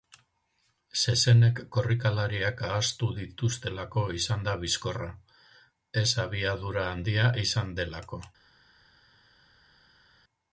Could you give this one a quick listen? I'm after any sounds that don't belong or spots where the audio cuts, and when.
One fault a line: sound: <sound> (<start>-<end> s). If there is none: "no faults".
no faults